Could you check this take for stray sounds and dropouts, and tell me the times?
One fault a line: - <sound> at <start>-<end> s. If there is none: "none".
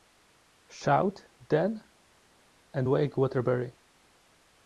none